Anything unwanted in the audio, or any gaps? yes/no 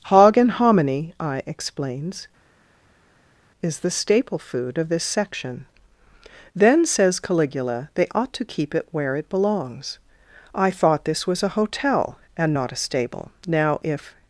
no